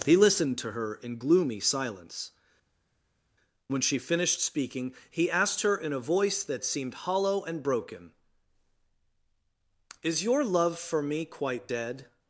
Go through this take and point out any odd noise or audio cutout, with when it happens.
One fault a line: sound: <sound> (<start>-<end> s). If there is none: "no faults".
no faults